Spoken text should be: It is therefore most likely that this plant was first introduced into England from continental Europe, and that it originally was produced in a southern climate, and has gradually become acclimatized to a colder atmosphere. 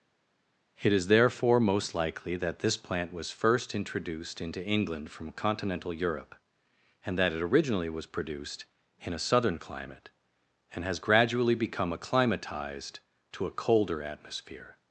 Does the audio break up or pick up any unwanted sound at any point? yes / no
no